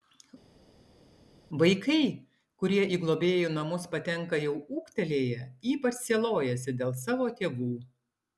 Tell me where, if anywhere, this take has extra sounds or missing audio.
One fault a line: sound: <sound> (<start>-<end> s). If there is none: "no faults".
no faults